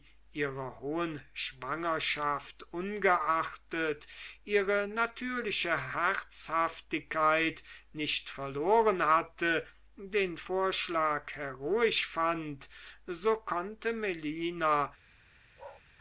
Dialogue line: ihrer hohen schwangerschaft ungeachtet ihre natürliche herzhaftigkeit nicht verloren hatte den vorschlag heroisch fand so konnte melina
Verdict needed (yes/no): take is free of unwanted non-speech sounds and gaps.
no